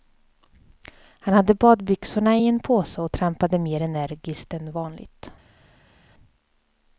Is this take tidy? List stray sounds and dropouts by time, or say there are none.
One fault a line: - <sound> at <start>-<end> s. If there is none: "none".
none